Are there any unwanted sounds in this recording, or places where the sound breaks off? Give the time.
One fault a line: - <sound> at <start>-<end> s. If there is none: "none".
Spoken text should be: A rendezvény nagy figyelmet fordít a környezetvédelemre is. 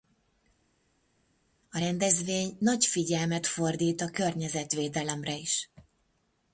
none